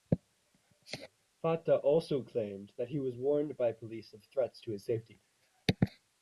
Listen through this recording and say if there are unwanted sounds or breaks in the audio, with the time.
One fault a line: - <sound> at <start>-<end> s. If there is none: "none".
none